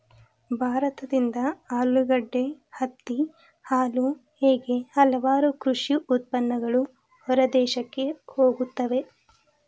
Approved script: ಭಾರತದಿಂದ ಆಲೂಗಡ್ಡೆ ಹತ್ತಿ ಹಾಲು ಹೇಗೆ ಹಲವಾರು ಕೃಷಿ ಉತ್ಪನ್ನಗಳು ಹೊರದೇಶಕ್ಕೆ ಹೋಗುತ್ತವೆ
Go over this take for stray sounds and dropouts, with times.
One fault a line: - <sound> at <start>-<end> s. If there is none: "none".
none